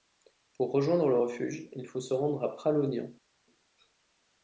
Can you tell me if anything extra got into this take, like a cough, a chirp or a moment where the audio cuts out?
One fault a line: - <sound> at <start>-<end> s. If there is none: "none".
none